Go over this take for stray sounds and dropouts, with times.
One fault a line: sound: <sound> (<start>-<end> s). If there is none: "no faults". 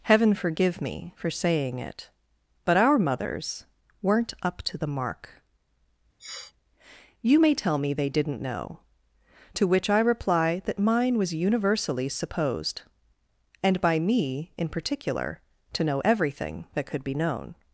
sound: sniff (6.2-6.5 s)